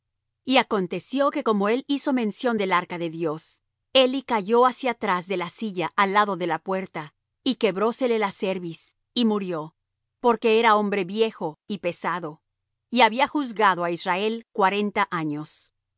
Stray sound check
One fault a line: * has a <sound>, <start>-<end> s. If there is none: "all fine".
all fine